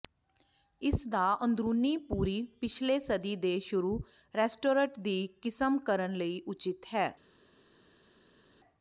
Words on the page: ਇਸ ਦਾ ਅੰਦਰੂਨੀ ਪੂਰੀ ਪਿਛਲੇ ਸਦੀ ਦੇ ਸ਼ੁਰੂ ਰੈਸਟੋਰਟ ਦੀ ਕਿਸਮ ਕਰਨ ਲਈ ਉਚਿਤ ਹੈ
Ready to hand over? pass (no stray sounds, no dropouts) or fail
pass